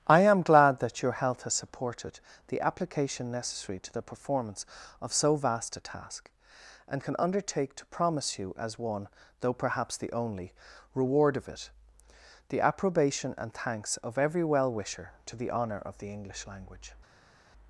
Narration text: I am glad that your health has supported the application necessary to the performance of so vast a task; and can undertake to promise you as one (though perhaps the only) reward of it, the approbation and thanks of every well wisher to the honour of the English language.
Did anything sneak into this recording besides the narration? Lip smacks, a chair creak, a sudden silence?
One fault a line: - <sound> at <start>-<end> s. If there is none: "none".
none